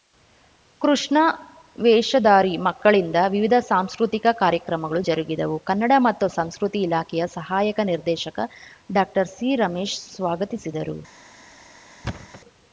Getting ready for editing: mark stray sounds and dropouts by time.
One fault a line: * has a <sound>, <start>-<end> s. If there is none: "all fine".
* has a thud, 12.0-12.4 s